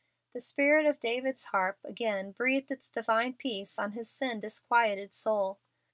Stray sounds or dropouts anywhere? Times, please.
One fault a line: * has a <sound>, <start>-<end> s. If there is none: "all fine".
all fine